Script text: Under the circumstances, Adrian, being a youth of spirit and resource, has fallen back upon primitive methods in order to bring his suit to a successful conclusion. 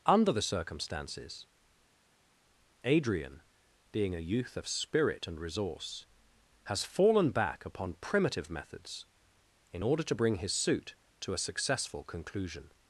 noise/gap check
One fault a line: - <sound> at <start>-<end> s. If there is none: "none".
none